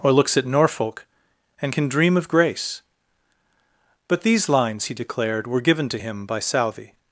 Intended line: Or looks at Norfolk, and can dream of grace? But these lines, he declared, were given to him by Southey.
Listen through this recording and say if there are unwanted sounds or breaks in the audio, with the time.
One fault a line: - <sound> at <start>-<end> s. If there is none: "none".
none